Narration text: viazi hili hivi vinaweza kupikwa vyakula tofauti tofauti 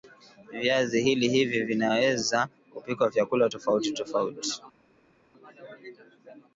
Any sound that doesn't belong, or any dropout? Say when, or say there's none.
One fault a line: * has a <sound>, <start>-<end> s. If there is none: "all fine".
all fine